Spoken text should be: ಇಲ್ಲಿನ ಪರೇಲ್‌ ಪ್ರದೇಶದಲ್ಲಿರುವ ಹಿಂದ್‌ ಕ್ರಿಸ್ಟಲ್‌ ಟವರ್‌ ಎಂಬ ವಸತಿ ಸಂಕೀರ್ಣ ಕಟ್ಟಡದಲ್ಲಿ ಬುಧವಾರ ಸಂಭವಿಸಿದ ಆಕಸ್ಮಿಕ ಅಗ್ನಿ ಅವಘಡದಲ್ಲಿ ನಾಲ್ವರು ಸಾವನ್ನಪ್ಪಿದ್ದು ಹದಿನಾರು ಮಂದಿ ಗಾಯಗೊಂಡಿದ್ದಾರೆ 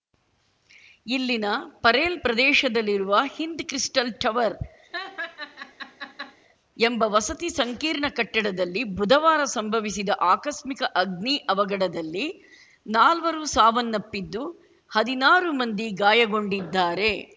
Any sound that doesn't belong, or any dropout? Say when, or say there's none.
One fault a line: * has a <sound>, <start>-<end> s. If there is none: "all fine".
* has a laugh, 4.9-6.4 s